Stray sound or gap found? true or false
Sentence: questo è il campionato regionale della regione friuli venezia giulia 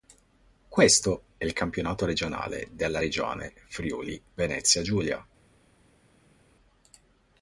false